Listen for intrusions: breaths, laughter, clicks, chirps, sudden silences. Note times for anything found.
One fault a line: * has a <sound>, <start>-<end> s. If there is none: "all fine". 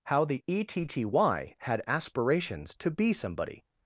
all fine